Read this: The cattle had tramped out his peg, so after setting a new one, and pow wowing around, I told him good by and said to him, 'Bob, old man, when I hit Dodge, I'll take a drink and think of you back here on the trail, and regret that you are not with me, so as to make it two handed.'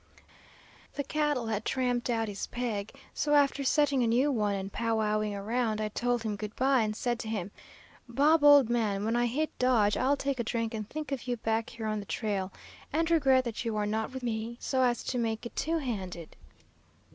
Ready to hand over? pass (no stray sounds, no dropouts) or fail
pass